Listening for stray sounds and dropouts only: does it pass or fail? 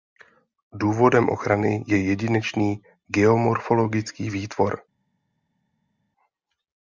pass